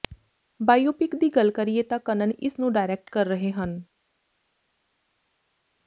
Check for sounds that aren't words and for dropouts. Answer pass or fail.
pass